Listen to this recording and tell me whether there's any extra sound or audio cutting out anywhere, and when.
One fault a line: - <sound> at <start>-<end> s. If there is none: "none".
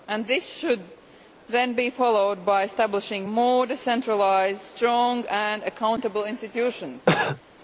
- cough at 7.1-7.4 s